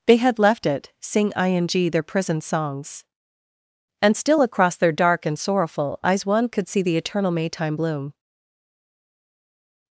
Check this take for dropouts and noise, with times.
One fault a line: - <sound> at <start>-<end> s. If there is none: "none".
none